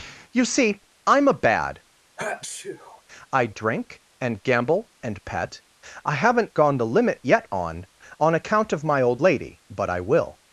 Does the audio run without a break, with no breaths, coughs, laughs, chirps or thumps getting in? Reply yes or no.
no